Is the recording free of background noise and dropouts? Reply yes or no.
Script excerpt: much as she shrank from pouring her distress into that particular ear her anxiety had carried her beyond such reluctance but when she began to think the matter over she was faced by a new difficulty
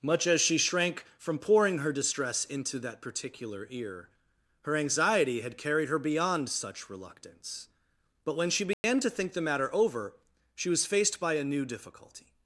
no